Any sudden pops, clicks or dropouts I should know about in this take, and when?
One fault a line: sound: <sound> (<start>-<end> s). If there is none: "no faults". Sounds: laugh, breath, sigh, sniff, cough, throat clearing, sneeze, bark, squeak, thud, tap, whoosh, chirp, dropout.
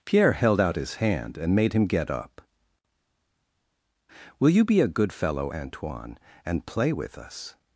no faults